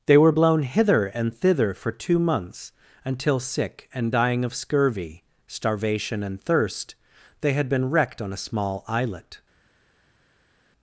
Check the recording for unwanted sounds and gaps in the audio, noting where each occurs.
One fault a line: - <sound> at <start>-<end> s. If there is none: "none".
none